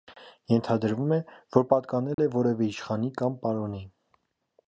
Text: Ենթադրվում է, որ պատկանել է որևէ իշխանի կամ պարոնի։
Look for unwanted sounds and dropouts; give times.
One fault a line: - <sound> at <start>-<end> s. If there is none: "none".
- dropout at 2.1-2.2 s